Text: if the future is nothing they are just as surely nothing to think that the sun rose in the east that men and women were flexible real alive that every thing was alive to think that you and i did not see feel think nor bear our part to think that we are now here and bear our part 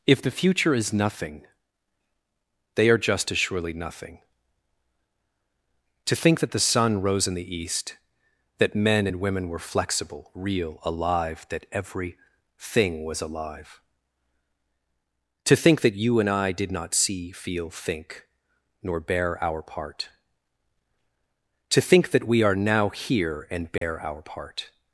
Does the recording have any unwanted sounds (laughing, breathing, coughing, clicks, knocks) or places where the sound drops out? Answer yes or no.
yes